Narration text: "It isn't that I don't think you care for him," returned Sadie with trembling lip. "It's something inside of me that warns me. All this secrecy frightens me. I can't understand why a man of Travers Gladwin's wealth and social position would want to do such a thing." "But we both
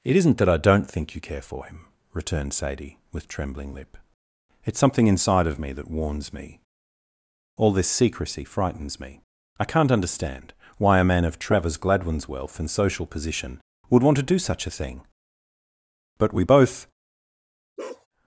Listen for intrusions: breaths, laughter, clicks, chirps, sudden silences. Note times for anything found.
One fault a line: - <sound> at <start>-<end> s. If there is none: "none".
- bark at 17.8-18.1 s